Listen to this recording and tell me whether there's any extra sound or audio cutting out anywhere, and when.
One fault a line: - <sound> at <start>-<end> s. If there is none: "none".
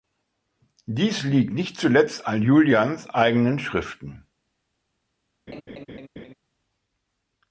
- laugh at 5.5-6.3 s